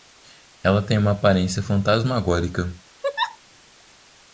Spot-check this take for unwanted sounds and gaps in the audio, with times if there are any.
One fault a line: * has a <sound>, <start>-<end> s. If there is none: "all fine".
* has a laugh, 3.0-3.4 s